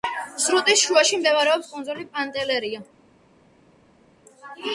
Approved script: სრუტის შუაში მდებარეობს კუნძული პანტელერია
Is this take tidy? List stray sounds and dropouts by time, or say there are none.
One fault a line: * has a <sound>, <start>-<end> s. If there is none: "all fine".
all fine